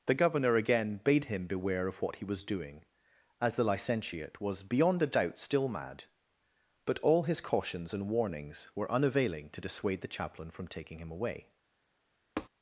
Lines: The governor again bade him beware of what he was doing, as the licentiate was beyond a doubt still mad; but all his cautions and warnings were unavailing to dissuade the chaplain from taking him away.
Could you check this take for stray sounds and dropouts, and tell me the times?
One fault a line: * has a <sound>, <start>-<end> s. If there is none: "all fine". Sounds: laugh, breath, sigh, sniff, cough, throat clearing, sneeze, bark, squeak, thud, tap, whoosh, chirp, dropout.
* has a tap, 12.4-12.5 s